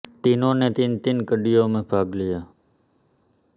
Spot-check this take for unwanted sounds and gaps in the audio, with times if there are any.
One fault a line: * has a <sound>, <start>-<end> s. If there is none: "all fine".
all fine